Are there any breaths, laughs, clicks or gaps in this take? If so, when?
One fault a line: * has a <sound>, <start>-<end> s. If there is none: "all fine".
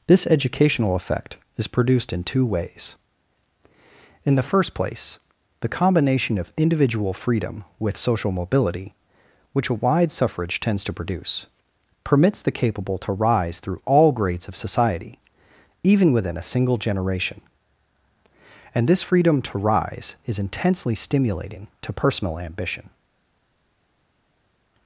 all fine